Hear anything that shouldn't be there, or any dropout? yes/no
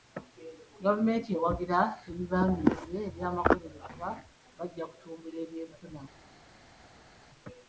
no